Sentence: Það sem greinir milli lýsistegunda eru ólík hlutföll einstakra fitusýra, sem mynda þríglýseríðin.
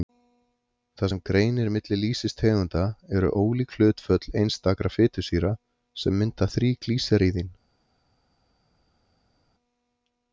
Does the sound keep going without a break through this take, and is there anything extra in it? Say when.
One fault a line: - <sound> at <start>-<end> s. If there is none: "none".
none